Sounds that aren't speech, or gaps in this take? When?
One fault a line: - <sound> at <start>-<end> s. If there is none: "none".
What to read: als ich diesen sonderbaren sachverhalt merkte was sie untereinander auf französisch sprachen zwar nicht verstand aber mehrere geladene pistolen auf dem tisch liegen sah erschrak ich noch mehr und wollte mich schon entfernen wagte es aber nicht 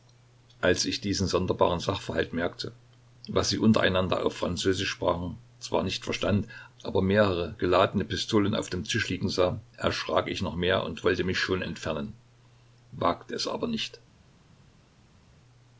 none